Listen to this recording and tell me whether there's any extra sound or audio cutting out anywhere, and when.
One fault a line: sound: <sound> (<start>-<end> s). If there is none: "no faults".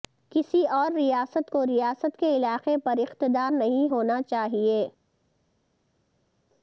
no faults